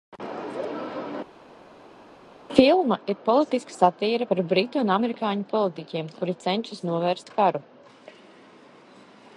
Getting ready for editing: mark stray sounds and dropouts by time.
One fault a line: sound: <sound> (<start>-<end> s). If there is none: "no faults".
no faults